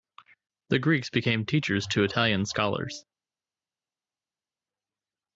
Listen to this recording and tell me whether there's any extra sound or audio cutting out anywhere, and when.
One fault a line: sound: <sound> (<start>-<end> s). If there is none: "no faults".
no faults